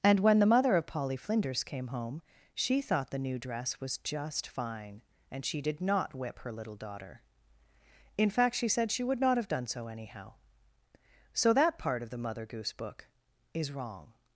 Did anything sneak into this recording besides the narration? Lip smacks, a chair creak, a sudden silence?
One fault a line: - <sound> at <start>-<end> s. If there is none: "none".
none